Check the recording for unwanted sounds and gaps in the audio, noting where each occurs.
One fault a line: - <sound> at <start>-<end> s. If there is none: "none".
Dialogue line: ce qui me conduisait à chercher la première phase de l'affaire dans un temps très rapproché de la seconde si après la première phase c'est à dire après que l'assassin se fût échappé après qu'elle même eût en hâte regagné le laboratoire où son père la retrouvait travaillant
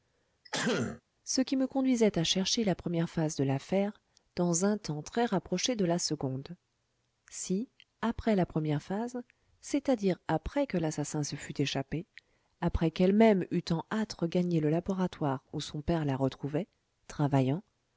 - throat clearing at 0.4-1.0 s